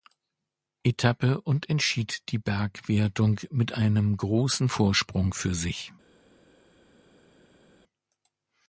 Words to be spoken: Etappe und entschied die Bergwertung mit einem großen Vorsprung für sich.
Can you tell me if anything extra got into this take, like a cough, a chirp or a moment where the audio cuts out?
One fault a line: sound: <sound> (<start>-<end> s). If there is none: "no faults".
no faults